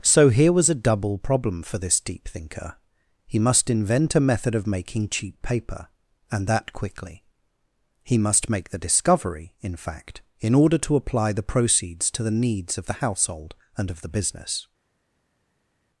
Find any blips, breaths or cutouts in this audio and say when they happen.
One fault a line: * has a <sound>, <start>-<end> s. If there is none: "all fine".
all fine